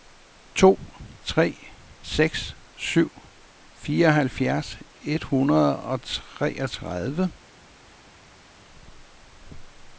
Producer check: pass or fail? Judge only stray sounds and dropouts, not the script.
pass